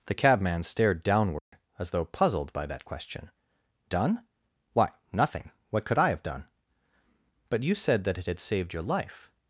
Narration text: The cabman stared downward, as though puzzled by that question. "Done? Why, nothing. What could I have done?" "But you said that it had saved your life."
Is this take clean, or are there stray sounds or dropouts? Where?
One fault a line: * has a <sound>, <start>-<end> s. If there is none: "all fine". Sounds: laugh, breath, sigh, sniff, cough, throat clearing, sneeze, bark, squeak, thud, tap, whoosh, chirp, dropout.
* has a dropout, 1.4-1.5 s